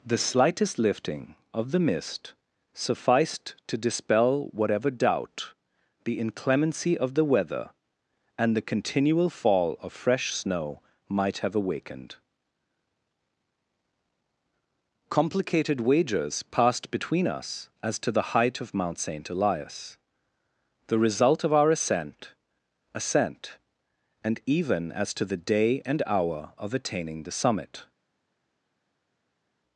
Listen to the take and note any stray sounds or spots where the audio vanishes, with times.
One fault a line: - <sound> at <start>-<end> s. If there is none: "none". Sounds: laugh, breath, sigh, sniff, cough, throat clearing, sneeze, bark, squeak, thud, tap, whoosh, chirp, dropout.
none